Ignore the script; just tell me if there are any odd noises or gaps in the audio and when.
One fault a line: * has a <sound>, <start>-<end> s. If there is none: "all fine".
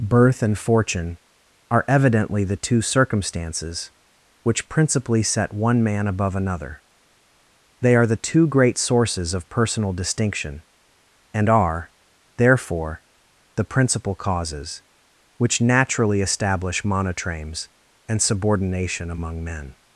all fine